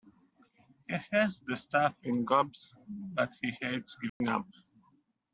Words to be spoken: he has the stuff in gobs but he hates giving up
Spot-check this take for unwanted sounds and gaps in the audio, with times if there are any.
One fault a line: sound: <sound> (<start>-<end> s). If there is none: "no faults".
sound: dropout (4.1-4.2 s)